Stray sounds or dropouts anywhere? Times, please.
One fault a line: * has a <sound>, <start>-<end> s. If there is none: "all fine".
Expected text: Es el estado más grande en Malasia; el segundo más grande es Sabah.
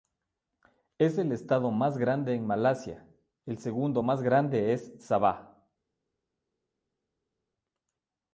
all fine